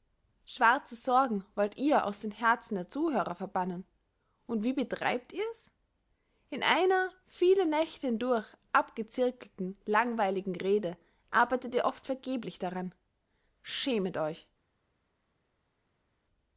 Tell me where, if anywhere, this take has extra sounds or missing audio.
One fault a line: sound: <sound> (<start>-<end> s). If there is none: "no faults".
no faults